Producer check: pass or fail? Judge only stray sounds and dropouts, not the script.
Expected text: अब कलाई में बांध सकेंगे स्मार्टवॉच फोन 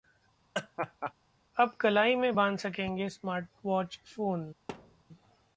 fail